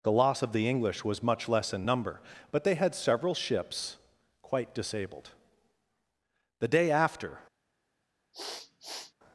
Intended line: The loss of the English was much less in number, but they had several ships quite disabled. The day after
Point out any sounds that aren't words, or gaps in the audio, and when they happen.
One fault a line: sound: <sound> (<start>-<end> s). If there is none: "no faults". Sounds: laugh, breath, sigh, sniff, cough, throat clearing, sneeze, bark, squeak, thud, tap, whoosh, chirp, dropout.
sound: sniff (8.3-9.1 s)